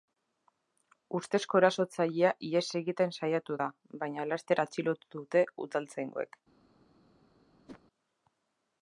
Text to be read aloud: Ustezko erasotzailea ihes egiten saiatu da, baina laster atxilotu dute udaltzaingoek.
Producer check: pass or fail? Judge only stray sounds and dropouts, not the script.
fail